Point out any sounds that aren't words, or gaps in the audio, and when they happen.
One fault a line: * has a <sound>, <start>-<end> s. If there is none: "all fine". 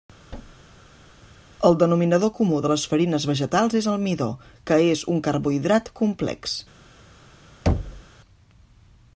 * has a thud, 0.3-1.3 s
* has a thud, 7.7-8.0 s